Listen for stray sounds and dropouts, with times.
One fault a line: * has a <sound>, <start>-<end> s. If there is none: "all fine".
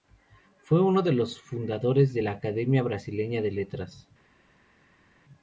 all fine